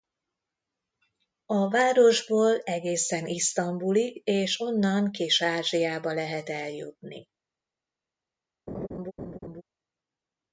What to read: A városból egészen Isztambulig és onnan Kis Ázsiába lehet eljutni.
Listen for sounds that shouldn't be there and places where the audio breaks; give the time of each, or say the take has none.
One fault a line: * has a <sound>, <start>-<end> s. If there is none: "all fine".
* has a laugh, 8.7-9.6 s